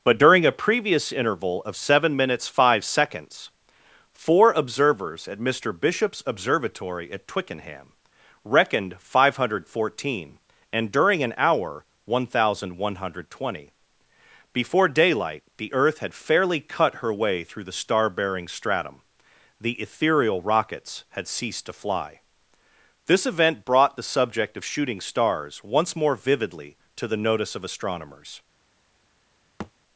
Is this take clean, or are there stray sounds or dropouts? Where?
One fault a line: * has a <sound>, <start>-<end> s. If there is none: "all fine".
* has a thud, 29.6-29.7 s